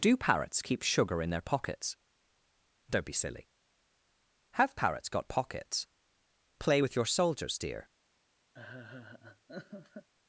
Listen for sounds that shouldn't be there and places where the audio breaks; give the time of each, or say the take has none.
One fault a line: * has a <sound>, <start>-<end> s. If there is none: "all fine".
* has a laugh, 8.5-10.1 s